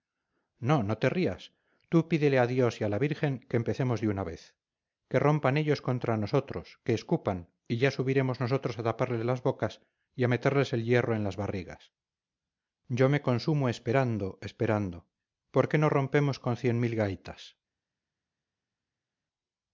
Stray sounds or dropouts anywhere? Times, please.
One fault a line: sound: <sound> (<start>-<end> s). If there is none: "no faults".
no faults